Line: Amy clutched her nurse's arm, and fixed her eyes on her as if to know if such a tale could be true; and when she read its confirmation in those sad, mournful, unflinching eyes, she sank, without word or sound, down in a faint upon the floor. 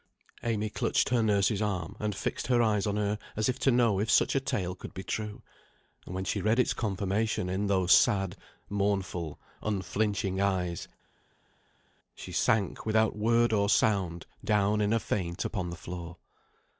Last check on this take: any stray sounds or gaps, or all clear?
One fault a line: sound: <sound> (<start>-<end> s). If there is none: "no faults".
no faults